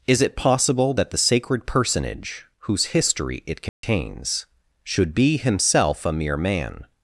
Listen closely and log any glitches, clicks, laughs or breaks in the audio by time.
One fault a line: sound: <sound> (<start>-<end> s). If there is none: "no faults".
sound: dropout (3.7-3.8 s)